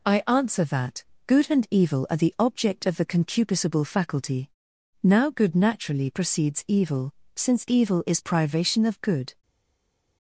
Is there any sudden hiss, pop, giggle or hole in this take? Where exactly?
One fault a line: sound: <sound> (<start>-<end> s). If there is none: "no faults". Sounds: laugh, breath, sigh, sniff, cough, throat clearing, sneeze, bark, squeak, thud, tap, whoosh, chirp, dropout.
no faults